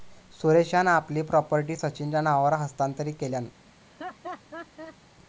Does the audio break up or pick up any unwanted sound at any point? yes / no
yes